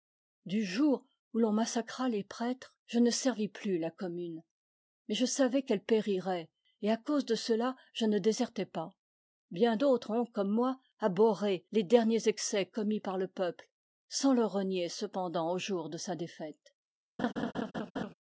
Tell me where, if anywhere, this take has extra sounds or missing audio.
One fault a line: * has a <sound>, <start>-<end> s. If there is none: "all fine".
* has a laugh, 17.2-18.1 s